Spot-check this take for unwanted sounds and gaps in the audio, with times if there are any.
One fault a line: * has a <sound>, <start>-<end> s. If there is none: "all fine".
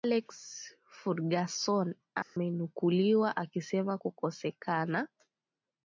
* has a dropout, 2.2-2.4 s